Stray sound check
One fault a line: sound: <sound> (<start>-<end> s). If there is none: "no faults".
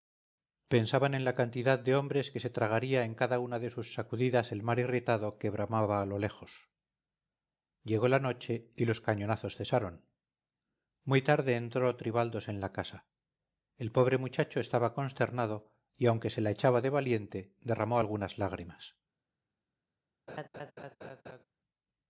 sound: laugh (20.3-21.4 s)